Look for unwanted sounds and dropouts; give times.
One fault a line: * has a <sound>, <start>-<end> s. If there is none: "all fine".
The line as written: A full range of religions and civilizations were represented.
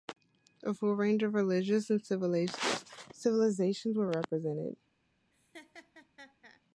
* has a laugh, 5.3-6.6 s